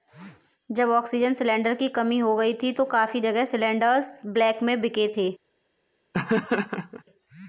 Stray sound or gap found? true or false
true